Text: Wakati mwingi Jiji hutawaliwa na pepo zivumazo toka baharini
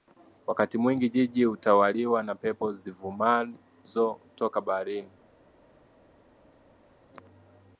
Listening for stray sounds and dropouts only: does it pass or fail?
pass